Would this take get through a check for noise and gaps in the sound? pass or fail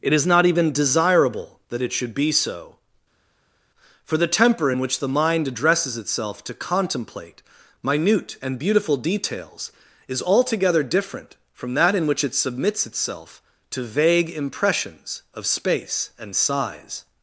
pass